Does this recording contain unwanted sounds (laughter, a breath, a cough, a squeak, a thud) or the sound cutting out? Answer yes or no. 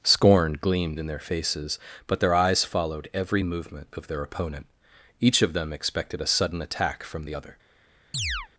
yes